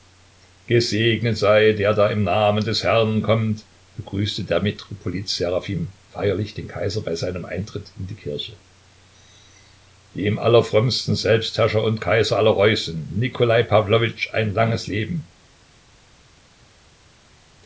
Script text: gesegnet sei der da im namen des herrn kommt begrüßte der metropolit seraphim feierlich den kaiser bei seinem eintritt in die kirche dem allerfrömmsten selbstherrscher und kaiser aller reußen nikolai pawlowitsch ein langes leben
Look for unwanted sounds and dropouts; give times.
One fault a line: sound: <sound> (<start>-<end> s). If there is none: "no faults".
no faults